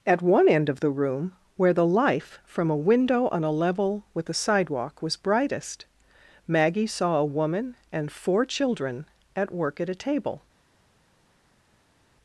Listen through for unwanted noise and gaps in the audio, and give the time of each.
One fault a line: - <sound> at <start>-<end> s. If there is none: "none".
none